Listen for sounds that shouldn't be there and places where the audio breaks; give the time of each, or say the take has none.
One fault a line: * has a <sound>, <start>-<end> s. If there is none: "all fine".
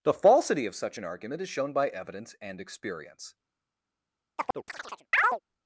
* has a chirp, 4.4-5.4 s